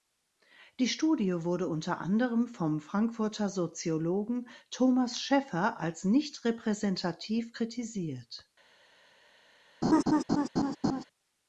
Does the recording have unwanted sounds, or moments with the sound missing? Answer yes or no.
yes